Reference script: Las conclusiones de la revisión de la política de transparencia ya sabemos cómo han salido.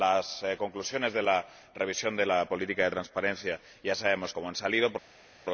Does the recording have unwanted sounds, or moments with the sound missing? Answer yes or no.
no